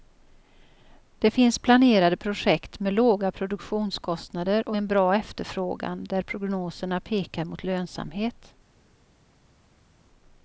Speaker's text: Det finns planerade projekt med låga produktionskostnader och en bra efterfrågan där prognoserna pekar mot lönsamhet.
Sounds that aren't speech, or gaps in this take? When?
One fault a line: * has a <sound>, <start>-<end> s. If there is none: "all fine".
all fine